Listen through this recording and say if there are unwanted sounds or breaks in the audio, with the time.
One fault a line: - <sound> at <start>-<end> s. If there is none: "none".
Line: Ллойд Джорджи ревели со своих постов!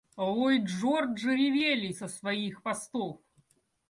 none